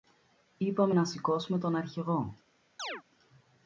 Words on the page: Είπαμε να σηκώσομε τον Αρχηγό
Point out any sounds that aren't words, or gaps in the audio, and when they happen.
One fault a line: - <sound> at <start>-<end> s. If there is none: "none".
- chirp at 2.8-3.0 s